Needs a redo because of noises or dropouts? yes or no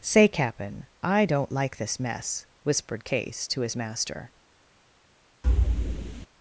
yes